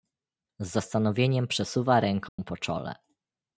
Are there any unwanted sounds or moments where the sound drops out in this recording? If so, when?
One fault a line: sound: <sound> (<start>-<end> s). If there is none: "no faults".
sound: dropout (2.3-2.4 s)